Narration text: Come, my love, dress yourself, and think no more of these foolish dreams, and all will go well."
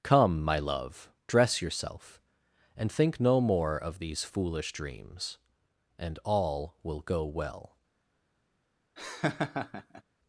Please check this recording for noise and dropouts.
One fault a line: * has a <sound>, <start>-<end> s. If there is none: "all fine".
* has a laugh, 9.0-10.0 s